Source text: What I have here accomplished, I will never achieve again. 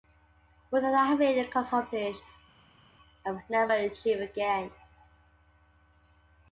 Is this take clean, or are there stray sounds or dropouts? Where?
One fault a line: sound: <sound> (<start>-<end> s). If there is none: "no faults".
no faults